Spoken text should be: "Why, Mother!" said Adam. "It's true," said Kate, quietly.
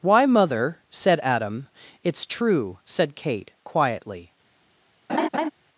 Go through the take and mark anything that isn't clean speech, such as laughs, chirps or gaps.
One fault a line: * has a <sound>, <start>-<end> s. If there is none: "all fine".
* has a laugh, 5.1-5.5 s